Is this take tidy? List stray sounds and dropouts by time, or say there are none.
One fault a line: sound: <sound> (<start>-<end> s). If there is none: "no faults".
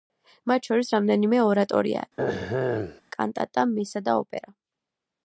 sound: throat clearing (2.2-3.0 s)